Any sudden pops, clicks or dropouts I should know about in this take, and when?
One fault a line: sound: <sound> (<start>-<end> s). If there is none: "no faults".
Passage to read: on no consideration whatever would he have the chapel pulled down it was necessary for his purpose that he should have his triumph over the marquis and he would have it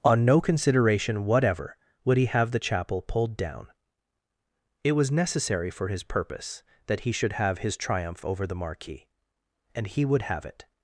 no faults